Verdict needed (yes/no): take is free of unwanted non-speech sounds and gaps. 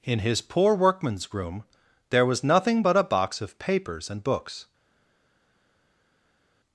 yes